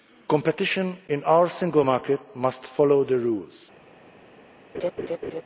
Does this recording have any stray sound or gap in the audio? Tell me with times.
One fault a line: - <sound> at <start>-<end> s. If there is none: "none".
- laugh at 4.7-5.4 s